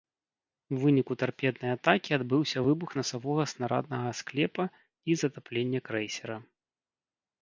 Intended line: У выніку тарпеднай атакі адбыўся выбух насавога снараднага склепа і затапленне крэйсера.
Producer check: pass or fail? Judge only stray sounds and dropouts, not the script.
pass